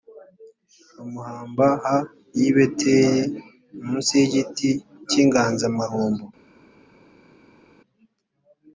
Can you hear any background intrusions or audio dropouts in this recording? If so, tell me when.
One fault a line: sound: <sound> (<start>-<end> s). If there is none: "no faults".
no faults